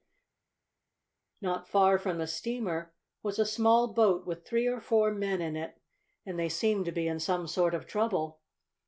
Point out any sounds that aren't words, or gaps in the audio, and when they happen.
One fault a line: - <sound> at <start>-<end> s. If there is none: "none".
none